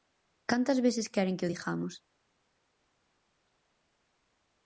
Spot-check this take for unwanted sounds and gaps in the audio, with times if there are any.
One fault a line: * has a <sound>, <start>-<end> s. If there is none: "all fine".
all fine